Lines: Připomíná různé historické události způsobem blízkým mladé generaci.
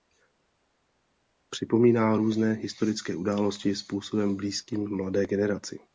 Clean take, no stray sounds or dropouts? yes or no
yes